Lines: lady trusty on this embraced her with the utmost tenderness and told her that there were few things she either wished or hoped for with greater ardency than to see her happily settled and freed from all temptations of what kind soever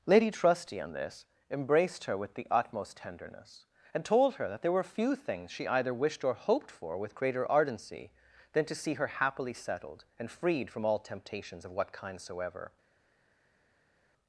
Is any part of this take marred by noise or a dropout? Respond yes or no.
no